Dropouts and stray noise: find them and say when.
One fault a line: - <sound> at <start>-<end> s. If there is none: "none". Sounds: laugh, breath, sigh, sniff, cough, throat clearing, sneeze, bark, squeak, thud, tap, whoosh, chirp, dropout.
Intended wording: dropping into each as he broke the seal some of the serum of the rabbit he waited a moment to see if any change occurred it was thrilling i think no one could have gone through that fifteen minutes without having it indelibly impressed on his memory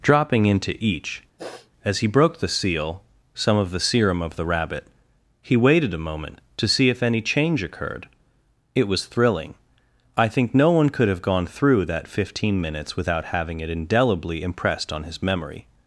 - sniff at 1.4-1.7 s